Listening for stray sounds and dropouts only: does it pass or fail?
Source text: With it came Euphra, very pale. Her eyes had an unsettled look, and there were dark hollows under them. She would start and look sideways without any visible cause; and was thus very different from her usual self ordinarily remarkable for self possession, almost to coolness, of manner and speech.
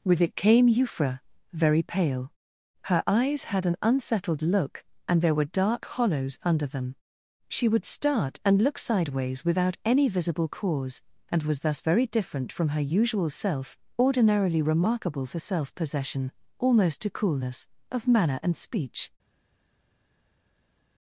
pass